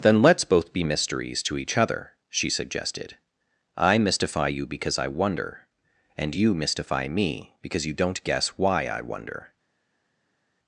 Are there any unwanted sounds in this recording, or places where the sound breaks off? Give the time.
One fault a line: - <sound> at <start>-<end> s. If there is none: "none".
none